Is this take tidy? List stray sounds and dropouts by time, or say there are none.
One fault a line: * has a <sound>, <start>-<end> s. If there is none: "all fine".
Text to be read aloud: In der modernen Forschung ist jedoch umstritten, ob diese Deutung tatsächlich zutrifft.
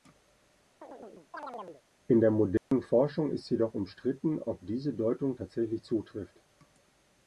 * has a chirp, 0.8-1.8 s
* has a dropout, 2.6-2.7 s